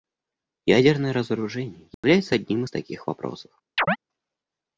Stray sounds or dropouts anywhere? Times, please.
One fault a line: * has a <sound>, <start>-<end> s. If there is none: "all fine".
* has a dropout, 1.9-2.0 s
* has a chirp, 3.8-4.0 s